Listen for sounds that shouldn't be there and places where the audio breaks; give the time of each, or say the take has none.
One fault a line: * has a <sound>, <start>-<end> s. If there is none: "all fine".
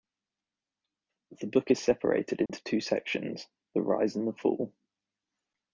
* has a dropout, 2.5-2.5 s